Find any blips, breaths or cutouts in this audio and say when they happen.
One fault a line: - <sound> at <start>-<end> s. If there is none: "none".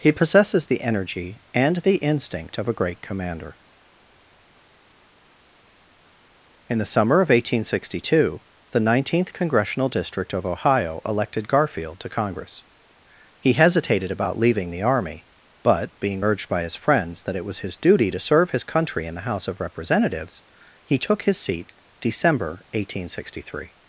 none